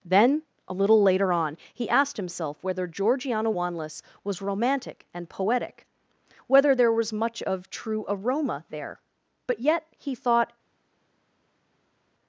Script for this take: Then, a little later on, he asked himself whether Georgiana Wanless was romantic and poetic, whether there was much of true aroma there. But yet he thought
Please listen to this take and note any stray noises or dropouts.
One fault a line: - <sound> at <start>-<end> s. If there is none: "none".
none